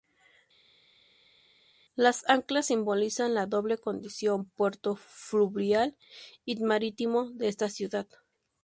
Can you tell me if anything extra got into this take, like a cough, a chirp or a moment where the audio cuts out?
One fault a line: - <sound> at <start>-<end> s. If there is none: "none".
none